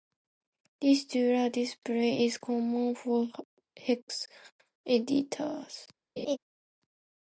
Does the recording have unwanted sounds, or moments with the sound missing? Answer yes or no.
yes